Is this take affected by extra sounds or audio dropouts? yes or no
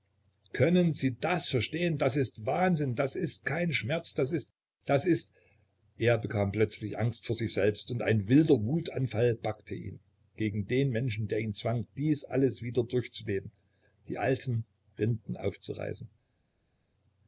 no